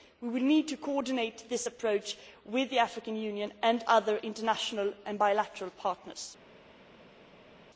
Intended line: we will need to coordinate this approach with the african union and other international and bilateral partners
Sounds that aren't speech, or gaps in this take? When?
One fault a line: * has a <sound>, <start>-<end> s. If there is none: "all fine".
all fine